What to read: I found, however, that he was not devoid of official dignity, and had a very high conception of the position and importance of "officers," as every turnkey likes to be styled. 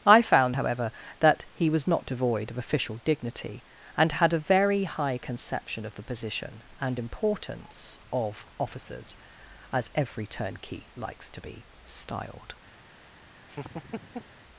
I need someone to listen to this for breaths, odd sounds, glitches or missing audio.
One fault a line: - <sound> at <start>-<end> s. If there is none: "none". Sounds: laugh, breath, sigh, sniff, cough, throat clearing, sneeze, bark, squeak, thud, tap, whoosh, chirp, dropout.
- laugh at 13.5-14.4 s